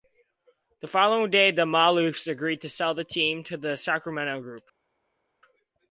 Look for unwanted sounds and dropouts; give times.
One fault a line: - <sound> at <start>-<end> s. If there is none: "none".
none